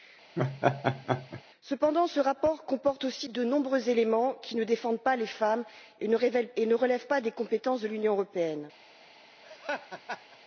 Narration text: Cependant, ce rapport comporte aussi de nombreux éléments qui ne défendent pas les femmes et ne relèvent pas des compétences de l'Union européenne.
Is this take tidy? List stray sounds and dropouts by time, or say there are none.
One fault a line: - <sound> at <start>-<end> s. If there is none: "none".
- laugh at 0.4-1.4 s
- laugh at 9.4-10.4 s